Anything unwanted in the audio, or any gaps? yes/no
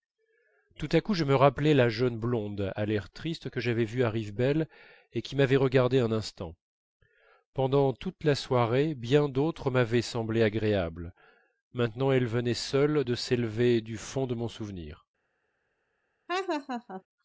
yes